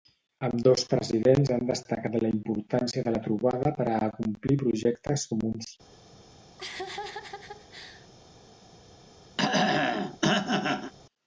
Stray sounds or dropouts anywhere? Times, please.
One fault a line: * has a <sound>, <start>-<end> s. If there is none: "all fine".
* has a laugh, 6.6-8.1 s
* has a throat clearing, 9.4-10.9 s